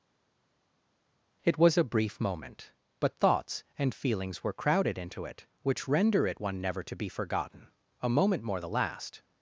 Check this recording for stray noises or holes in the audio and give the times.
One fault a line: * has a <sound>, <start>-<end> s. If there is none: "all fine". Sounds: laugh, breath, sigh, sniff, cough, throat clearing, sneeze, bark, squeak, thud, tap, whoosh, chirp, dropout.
all fine